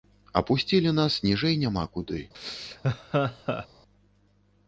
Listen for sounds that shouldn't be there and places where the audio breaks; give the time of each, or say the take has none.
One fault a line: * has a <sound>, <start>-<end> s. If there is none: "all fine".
* has a laugh, 2.3-3.7 s